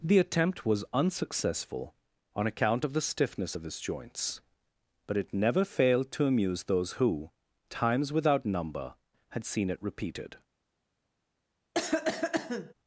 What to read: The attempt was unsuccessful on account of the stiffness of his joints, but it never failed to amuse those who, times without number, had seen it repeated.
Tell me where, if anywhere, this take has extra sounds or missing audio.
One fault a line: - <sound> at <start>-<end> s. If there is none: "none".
- cough at 11.7-12.7 s